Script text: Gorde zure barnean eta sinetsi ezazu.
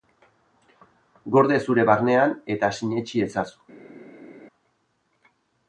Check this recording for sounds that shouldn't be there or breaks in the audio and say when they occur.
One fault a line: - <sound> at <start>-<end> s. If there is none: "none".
none